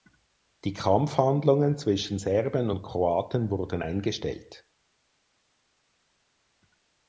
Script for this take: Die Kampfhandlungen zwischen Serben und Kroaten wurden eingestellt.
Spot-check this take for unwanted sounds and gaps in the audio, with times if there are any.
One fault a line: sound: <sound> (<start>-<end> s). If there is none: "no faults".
no faults